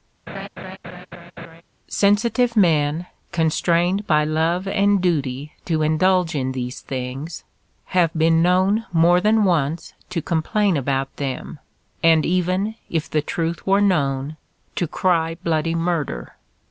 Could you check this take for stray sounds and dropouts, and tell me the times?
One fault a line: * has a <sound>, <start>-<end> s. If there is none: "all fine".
* has a laugh, 0.3-1.6 s